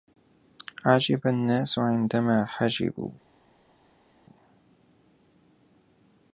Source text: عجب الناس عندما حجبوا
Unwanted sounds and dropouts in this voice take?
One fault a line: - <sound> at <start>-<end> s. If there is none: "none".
none